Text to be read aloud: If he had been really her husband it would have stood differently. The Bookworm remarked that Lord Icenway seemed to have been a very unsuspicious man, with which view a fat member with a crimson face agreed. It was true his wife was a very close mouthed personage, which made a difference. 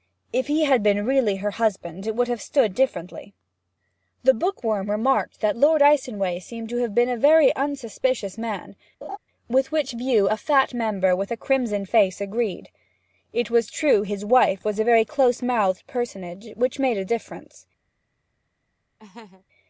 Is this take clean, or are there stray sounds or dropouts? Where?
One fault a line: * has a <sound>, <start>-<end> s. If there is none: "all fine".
* has a laugh, 9.0-9.2 s
* has a laugh, 19.0-19.4 s